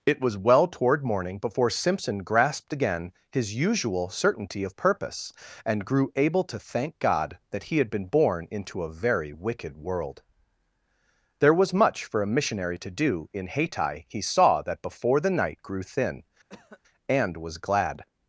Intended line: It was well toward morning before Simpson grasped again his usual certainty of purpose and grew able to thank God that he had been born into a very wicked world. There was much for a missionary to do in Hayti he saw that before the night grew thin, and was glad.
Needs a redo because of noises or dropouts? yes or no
yes